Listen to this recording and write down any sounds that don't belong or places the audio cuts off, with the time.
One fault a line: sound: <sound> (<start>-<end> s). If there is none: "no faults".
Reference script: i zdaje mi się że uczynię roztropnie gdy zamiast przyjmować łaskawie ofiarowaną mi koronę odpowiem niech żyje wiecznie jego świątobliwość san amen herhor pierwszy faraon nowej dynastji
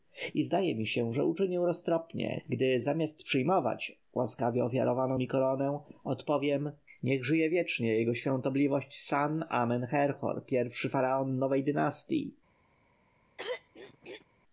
sound: throat clearing (13.4-14.3 s)